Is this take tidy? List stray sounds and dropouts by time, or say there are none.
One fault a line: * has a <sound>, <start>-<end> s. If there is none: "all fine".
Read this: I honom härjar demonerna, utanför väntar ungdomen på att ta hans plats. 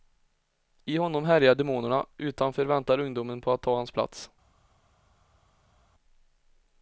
all fine